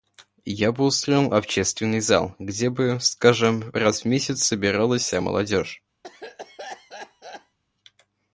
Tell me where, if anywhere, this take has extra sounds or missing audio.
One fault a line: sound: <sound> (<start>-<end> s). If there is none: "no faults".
sound: cough (6.0-7.6 s)